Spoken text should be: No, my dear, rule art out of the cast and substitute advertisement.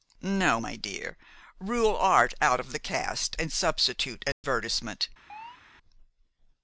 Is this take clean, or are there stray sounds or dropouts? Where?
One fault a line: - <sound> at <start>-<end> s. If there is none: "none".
- dropout at 4.3-4.4 s
- chirp at 5.3-5.6 s